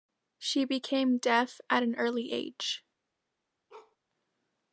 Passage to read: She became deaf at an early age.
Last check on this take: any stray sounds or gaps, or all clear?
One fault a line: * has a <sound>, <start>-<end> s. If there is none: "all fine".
* has a bark, 3.7-4.0 s